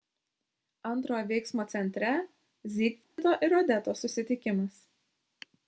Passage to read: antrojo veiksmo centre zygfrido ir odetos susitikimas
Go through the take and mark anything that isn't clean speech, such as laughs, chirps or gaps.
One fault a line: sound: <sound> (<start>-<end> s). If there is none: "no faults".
sound: dropout (3.0-3.2 s)